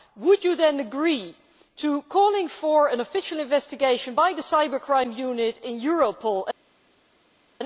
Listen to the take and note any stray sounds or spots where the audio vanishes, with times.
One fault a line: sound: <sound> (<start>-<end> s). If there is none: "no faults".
no faults